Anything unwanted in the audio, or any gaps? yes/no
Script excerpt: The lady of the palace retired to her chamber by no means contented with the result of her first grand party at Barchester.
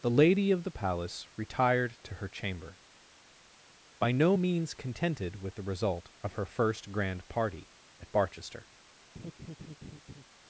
yes